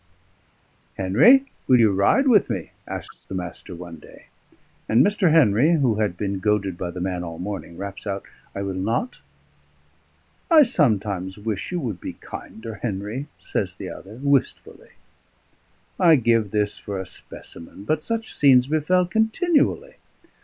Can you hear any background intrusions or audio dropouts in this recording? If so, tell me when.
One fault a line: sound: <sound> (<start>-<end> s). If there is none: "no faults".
no faults